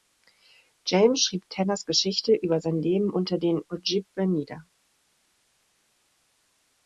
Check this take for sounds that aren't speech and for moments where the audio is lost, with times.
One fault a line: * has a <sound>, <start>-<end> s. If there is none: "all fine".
all fine